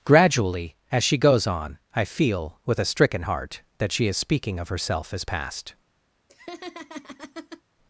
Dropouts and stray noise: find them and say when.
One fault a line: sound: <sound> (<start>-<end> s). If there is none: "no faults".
sound: laugh (6.3-7.6 s)